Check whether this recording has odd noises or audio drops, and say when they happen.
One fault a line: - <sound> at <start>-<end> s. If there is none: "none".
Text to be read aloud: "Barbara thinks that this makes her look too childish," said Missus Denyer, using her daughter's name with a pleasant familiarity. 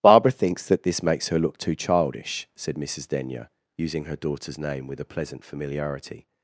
none